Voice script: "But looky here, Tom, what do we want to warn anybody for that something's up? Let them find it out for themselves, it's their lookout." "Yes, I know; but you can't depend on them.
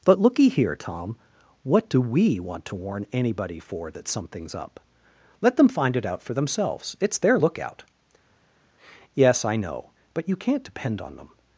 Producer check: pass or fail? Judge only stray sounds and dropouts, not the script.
pass